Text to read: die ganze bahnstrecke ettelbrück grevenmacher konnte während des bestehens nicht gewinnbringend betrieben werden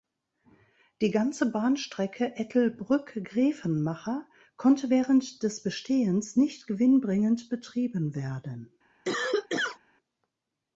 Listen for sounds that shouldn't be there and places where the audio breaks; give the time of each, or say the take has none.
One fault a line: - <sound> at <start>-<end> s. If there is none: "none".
- cough at 9.1-9.8 s